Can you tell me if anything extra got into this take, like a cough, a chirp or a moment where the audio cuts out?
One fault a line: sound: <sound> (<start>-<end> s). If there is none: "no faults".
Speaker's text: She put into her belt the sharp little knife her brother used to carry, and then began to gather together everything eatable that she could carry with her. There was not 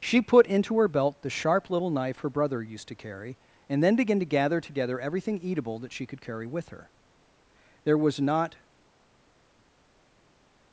no faults